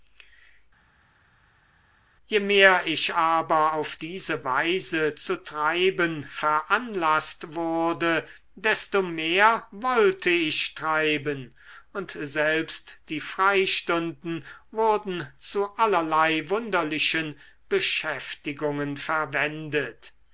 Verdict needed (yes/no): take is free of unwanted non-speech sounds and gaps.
yes